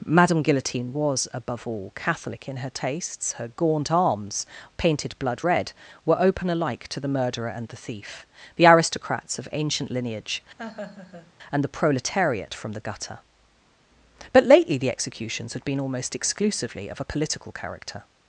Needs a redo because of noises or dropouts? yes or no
yes